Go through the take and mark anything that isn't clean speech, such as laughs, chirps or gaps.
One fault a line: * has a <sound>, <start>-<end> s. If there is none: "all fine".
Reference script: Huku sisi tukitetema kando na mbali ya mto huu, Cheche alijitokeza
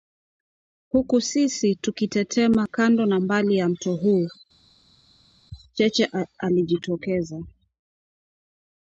all fine